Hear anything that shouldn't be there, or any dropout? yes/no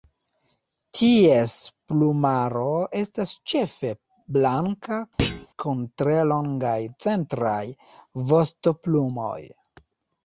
yes